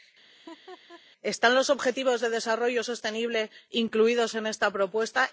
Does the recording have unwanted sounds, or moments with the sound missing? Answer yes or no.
yes